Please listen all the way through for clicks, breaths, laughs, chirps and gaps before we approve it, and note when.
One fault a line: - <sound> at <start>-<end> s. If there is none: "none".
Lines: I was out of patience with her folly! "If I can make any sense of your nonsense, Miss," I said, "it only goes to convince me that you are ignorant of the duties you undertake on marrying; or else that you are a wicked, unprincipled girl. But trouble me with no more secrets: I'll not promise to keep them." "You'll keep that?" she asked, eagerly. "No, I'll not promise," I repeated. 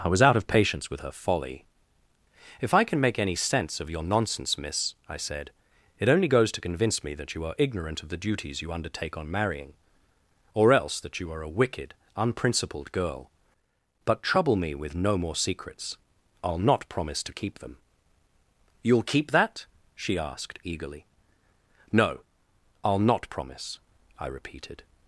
none